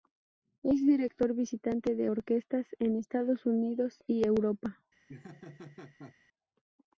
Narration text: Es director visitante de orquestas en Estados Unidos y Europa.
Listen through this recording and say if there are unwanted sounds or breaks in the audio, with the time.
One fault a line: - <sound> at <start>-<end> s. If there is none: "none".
- laugh at 5.1-6.2 s